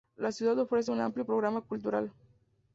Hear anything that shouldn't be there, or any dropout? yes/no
no